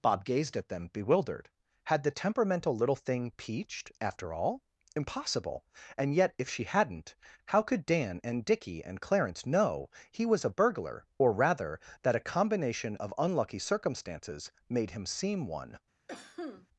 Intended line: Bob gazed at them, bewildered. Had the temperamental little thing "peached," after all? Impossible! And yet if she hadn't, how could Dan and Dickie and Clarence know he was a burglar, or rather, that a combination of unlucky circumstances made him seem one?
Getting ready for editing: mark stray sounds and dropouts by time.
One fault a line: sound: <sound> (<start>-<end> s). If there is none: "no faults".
sound: cough (16.1-16.7 s)